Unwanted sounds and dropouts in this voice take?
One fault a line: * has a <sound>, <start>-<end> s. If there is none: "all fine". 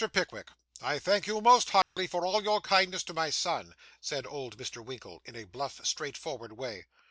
* has a dropout, 1.8-2.0 s